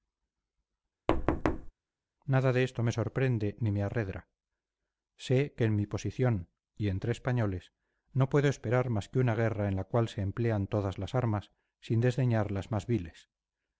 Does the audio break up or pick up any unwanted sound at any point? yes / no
yes